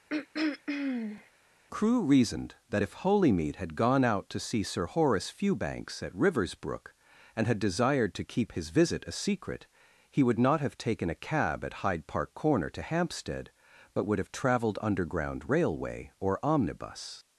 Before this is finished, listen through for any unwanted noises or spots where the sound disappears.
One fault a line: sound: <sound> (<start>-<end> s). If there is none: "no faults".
sound: throat clearing (0.1-1.3 s)